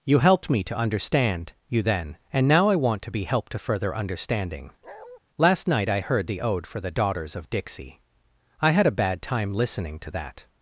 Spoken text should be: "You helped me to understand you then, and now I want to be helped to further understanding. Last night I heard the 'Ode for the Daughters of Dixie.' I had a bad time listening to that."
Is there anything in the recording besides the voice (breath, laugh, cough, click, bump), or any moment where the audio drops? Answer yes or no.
yes